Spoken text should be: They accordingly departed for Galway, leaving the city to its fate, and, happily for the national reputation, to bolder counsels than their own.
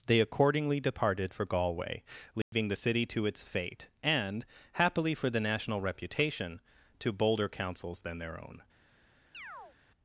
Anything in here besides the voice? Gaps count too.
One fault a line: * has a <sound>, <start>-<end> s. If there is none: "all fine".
* has a dropout, 2.4-2.5 s
* has a chirp, 9.3-9.8 s